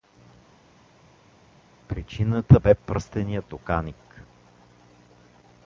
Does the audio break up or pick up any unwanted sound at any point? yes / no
no